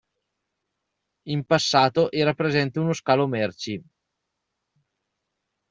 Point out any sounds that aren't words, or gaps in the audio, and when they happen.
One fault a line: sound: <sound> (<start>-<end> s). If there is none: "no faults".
no faults